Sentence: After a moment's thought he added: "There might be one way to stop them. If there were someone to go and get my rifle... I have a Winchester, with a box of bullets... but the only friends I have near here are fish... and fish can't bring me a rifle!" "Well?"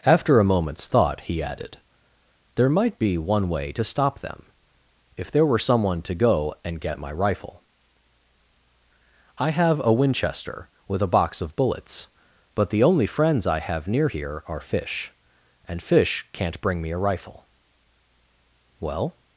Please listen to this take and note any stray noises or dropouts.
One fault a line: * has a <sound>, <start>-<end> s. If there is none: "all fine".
all fine